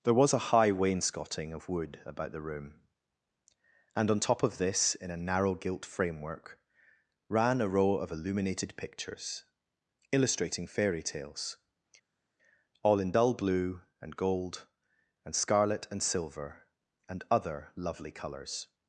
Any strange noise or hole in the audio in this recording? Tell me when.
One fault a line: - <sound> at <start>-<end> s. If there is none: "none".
none